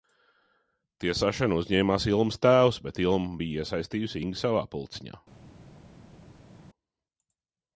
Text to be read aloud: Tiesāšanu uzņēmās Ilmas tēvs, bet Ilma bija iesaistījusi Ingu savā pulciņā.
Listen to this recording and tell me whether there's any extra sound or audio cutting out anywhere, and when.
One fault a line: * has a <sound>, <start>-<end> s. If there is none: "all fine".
all fine